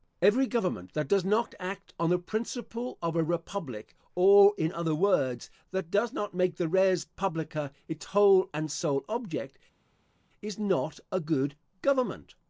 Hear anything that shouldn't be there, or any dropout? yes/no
no